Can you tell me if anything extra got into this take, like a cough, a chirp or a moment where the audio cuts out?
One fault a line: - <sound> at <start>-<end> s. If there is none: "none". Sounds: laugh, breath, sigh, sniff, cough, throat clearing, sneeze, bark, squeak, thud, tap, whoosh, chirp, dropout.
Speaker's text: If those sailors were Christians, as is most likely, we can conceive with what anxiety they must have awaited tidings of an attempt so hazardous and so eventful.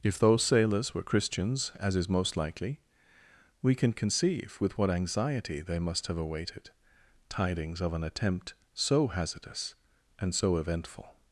none